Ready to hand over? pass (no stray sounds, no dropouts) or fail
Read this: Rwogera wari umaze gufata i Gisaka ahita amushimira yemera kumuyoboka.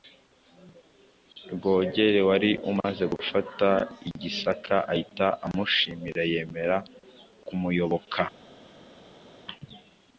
pass